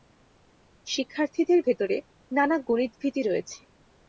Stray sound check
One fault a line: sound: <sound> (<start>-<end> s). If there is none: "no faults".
no faults